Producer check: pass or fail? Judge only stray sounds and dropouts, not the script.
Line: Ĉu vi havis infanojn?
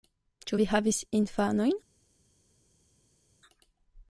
pass